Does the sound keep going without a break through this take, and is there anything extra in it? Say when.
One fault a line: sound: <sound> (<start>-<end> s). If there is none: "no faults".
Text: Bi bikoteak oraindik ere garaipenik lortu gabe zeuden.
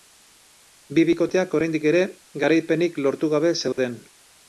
sound: dropout (3.7-3.8 s)